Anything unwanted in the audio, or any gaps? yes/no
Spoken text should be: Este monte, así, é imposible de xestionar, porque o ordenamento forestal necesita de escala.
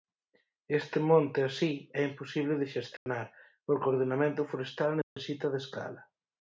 yes